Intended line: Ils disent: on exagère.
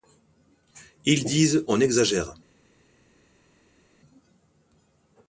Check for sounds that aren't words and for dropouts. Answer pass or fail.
pass